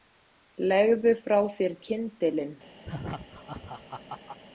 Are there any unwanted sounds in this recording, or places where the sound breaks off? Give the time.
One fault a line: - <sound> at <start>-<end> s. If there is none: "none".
- laugh at 2.8-4.4 s